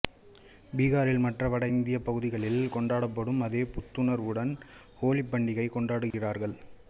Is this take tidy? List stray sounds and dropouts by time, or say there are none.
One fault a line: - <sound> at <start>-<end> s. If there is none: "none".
- dropout at 6.1-6.1 s